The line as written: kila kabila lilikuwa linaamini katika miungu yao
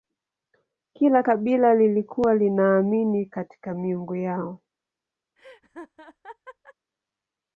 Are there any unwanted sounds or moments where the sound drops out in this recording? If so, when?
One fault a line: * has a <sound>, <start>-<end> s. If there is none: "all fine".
* has a laugh, 5.4-6.7 s